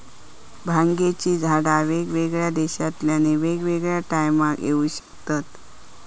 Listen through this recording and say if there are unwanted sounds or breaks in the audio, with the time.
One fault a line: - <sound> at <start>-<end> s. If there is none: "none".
- dropout at 5.0-5.1 s